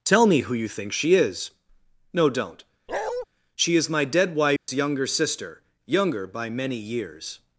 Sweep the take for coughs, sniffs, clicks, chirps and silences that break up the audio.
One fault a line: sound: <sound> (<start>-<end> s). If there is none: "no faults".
sound: bark (2.9-3.3 s)
sound: dropout (4.6-4.7 s)